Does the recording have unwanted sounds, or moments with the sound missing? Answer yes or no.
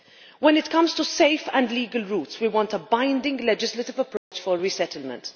yes